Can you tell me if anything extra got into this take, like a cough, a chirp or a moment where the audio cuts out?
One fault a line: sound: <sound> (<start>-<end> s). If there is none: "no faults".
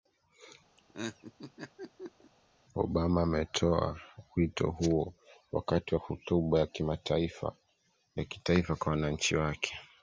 sound: laugh (0.8-2.3 s)